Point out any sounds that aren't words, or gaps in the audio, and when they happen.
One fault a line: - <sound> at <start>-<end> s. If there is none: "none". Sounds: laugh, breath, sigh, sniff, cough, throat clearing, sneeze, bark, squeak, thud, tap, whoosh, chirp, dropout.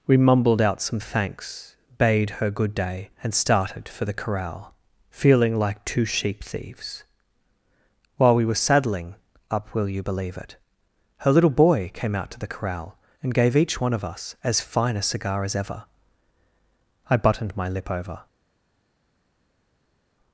none